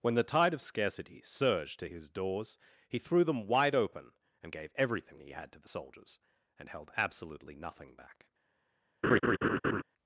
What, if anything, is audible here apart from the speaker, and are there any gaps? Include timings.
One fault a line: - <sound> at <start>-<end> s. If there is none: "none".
- laugh at 9.0-9.8 s